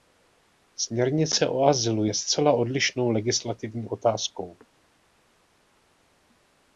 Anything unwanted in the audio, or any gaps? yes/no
no